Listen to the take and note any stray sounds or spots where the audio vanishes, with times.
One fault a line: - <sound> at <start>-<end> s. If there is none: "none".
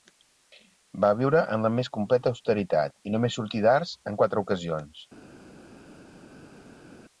none